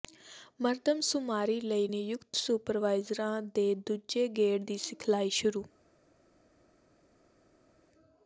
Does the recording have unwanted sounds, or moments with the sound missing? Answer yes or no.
no